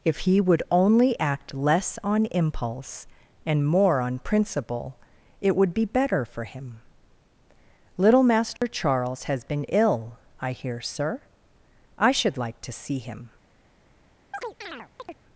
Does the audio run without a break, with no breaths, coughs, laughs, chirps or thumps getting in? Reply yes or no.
no